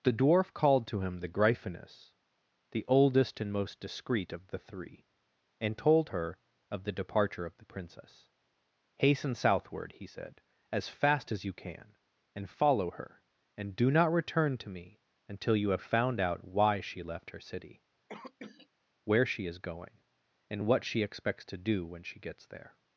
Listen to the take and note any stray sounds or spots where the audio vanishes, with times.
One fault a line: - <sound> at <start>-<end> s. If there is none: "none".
- cough at 18.1-18.7 s